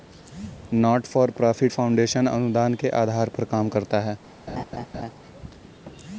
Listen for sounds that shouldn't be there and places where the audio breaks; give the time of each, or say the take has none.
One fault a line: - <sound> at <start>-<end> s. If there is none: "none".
- laugh at 4.5-5.1 s